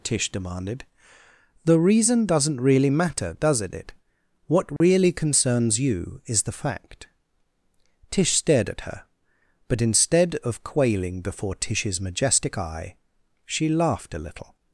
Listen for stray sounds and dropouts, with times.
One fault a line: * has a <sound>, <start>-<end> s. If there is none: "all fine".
* has a dropout, 4.8-4.8 s